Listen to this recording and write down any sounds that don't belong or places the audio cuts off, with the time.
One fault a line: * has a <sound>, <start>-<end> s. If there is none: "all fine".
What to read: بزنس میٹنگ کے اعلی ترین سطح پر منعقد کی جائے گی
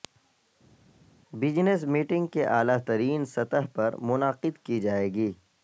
all fine